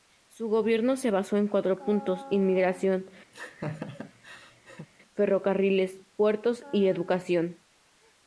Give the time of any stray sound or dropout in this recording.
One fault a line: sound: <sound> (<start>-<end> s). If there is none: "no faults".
sound: laugh (3.3-4.9 s)